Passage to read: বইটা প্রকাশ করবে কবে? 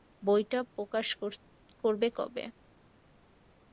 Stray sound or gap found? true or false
false